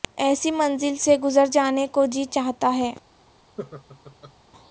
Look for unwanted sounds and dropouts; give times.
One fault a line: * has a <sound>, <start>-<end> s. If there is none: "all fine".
* has a laugh, 3.6-4.3 s